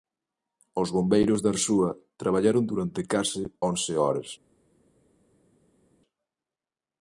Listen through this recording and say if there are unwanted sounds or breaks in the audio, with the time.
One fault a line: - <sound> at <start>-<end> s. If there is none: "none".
none